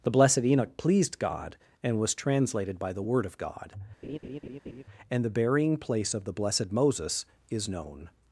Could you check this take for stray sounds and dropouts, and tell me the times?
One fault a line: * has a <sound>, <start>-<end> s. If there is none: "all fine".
* has a laugh, 4.0-4.8 s